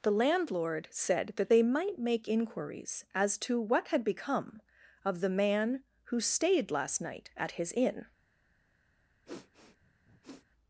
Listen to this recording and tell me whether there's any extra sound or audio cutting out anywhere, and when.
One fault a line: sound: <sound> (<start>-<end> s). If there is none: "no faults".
sound: sniff (9.2-10.4 s)